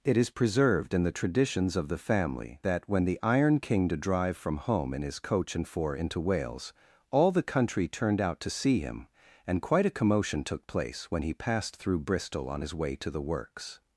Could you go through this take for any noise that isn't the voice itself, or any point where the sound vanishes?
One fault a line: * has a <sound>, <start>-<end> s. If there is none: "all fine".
all fine